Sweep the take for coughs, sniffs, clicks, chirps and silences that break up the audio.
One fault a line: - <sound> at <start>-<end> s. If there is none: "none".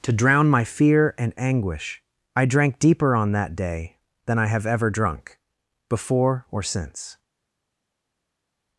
none